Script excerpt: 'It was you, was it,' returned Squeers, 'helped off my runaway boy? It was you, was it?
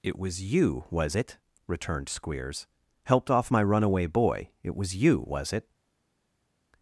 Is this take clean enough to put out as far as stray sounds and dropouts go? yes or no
yes